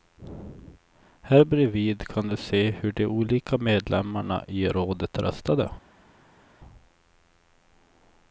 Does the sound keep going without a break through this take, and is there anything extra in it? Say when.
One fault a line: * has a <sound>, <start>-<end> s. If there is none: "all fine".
all fine